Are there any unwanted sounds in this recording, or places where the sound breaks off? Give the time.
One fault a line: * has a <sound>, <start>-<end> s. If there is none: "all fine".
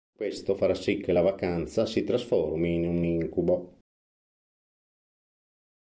all fine